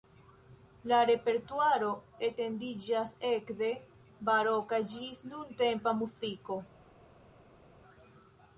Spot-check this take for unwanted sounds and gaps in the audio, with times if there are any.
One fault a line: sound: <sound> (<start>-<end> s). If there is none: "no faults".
no faults